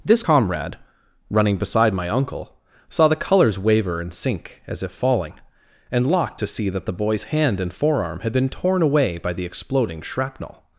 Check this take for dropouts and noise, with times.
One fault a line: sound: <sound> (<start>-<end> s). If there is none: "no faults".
no faults